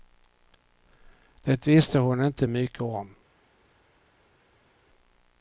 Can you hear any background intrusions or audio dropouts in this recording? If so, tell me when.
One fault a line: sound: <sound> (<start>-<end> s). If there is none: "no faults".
no faults